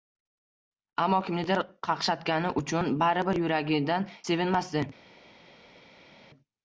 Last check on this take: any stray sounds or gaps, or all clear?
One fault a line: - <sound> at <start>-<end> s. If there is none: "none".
none